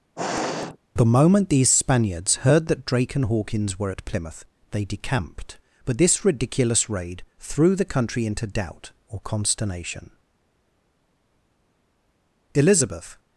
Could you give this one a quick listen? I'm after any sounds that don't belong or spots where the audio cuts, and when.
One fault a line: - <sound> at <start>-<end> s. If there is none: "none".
- sniff at 0.2-0.8 s